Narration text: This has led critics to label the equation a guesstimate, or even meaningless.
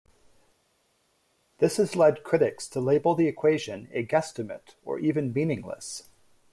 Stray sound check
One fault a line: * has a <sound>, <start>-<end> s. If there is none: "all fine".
all fine